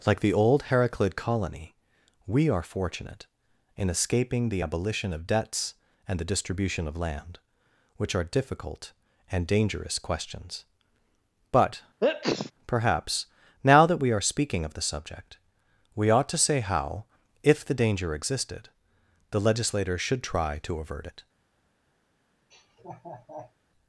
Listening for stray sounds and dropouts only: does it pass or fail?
fail